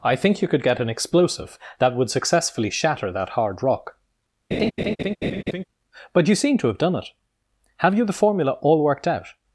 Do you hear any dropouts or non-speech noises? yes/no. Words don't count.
yes